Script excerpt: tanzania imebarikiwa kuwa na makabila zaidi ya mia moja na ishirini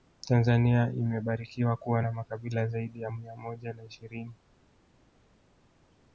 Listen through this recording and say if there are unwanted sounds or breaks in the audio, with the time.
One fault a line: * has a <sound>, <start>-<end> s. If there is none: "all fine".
all fine